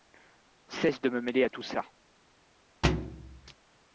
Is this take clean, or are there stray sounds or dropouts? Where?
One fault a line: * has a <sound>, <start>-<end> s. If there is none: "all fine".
* has a thud, 2.8-3.5 s